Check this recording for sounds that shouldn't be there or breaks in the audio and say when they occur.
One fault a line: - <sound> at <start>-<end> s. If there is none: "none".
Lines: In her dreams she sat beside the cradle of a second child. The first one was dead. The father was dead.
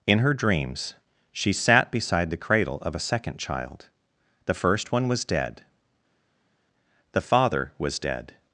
none